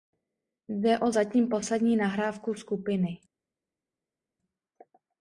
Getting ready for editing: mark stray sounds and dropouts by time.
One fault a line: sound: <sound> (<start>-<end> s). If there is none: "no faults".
no faults